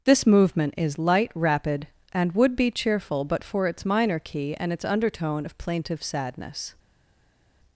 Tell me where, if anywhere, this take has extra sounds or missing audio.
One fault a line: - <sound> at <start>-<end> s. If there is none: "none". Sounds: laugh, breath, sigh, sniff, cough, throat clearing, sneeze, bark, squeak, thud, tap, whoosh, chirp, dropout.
none